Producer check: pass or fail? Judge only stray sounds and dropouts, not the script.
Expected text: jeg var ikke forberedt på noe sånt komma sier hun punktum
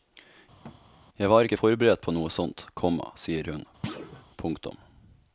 fail